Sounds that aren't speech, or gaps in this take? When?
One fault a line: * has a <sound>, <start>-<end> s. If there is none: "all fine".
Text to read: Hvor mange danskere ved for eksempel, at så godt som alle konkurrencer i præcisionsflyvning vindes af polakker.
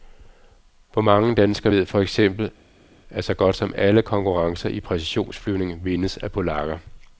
all fine